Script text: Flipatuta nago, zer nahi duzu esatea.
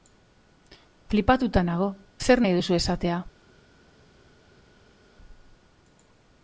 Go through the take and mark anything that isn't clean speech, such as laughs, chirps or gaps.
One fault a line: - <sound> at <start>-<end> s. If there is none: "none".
none